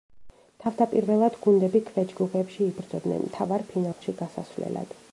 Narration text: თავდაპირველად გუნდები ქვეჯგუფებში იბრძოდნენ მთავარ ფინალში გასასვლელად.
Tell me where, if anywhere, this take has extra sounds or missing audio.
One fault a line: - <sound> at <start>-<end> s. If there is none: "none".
- dropout at 3.9-4.0 s